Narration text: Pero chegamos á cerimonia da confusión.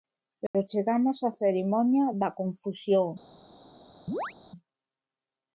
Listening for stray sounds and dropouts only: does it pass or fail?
fail